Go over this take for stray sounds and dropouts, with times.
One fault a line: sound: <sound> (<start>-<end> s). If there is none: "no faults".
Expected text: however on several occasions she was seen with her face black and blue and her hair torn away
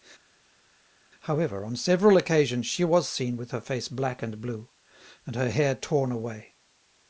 no faults